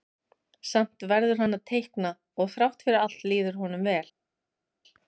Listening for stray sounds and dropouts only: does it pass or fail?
pass